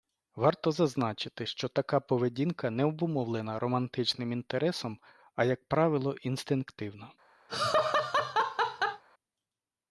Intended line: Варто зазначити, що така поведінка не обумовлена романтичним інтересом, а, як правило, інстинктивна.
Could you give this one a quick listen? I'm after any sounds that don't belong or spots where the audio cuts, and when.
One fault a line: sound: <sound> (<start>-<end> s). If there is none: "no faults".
sound: laugh (7.5-9.0 s)